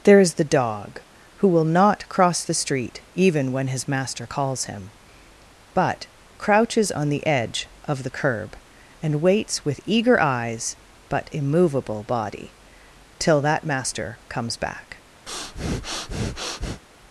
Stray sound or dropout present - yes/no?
yes